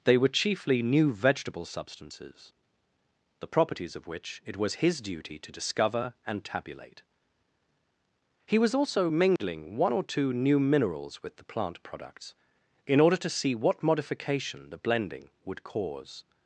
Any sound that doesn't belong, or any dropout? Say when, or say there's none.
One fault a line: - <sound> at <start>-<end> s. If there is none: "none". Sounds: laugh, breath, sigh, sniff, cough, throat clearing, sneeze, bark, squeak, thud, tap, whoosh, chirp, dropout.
- dropout at 9.4-9.4 s